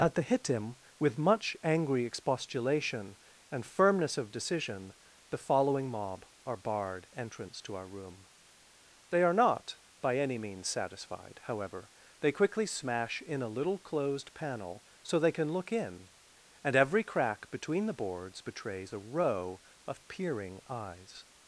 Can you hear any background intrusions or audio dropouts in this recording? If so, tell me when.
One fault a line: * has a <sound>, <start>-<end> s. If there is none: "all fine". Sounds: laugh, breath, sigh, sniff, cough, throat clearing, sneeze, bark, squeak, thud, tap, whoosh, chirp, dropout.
all fine